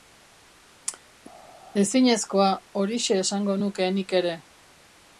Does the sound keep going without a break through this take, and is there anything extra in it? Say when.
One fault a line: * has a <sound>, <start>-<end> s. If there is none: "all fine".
all fine